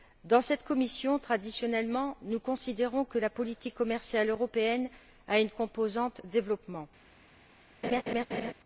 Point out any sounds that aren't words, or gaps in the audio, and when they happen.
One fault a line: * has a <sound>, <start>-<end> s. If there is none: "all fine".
* has a laugh, 7.8-8.5 s